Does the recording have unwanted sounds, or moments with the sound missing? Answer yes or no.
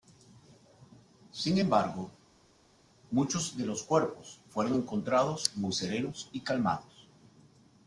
no